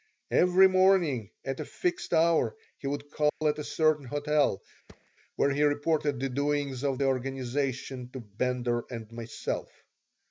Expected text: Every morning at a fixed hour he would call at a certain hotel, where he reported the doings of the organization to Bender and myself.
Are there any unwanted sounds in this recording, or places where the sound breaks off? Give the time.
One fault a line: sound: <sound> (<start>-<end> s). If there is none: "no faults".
sound: dropout (3.3-3.4 s)
sound: thud (4.9-5.1 s)